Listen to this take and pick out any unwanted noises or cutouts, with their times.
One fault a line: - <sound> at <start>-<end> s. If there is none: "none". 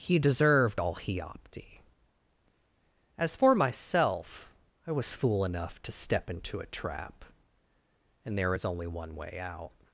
none